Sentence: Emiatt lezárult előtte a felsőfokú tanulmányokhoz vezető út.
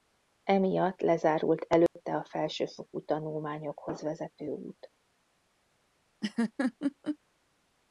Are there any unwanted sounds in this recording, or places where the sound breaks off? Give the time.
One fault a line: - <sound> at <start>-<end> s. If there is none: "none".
- dropout at 1.9-2.0 s
- laugh at 6.2-7.2 s